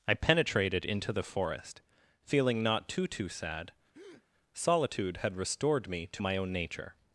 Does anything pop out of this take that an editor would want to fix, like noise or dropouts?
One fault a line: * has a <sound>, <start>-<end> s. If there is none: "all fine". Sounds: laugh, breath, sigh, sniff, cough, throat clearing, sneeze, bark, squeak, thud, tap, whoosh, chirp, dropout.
* has a breath, 3.9-4.3 s